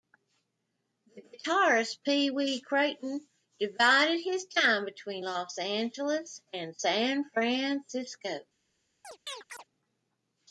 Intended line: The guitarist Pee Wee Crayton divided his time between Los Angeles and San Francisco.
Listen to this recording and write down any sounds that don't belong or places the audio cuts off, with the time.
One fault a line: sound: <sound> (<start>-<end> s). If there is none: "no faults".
sound: chirp (9.0-9.6 s)